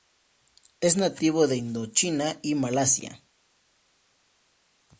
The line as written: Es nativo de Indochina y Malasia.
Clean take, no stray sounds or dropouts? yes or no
yes